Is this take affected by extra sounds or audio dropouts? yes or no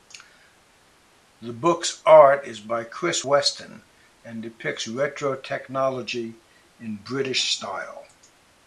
no